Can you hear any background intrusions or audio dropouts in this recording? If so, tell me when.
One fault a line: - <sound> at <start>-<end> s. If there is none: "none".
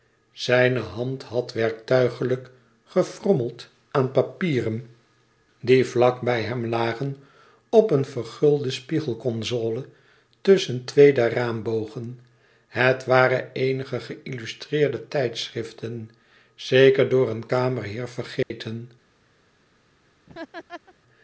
- dropout at 18.4-18.5 s
- laugh at 20.3-20.9 s